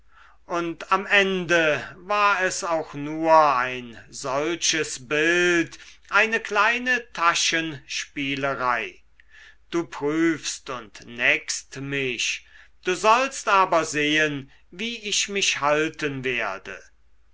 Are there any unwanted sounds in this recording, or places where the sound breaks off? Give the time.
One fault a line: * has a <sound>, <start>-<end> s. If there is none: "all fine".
all fine